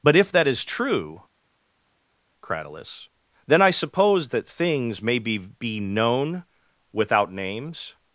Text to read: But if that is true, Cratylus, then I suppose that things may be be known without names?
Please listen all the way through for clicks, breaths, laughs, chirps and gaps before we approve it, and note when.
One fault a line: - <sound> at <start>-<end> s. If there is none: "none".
none